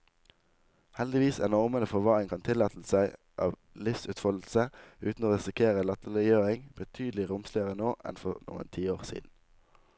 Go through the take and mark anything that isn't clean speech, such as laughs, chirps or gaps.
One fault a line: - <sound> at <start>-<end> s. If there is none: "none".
none